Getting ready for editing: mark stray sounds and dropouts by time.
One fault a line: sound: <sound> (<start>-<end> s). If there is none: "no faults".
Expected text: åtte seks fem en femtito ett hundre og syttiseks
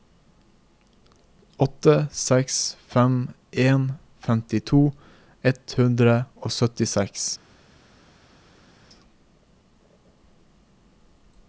no faults